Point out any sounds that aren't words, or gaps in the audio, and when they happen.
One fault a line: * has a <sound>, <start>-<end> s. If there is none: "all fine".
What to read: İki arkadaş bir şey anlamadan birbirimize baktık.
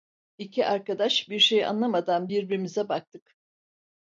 all fine